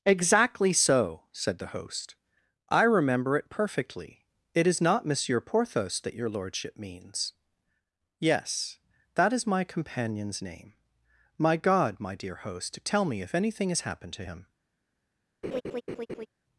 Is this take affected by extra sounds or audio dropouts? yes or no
yes